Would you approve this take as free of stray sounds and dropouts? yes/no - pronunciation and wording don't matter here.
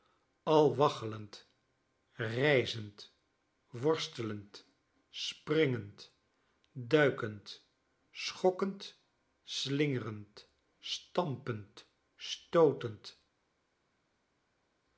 yes